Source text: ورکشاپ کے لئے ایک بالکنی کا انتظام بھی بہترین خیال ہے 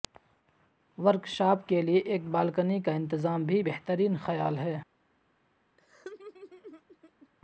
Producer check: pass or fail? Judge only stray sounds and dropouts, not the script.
fail